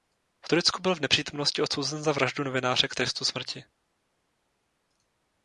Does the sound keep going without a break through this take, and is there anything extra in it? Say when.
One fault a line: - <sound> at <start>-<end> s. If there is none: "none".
none